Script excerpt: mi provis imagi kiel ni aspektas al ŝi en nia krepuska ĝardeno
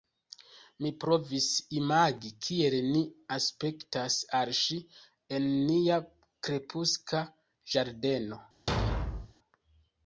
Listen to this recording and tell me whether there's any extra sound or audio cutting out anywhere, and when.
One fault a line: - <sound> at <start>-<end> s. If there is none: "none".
- thud at 8.7-9.3 s